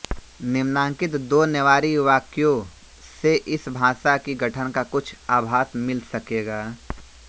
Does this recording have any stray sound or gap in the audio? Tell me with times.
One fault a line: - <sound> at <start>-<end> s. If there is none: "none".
none